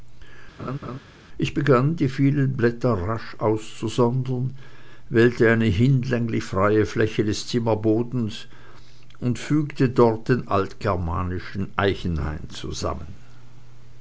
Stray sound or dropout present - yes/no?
yes